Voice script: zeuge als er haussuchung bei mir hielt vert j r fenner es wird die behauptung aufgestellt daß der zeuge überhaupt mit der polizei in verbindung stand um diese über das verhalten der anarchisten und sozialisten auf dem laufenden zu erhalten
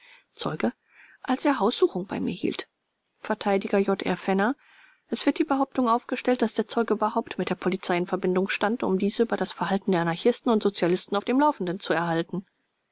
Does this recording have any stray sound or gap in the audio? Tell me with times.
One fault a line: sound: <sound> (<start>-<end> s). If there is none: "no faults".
no faults